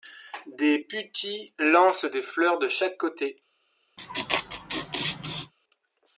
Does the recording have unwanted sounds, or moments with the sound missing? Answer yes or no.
yes